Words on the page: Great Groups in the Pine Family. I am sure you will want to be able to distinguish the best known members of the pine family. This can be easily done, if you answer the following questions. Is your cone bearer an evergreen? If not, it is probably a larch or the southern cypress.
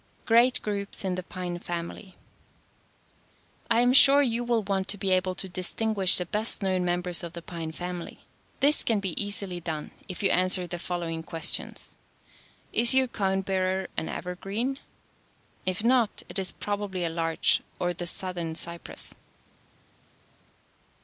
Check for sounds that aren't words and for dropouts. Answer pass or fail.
pass